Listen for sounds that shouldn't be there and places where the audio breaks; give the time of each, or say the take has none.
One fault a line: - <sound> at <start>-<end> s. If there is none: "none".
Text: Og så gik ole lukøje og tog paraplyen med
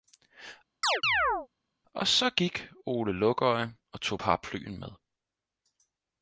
- chirp at 0.8-1.5 s